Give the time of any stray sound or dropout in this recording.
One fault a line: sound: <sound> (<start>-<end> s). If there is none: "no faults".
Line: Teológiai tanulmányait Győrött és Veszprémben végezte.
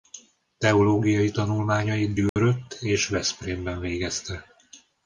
sound: dropout (2.3-2.4 s)